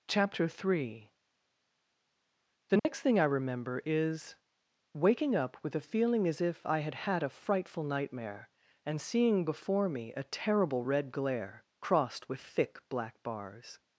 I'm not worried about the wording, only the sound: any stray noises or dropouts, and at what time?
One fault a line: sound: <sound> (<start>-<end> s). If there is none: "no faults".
sound: dropout (2.8-2.8 s)